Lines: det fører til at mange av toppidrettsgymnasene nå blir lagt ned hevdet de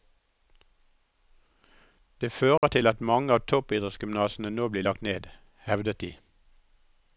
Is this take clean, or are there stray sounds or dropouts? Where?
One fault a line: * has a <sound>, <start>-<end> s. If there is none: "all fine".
* has a dropout, 2.6-2.6 s